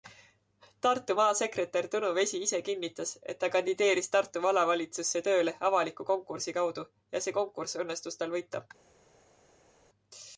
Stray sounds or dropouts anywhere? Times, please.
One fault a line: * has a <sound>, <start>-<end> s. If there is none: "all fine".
all fine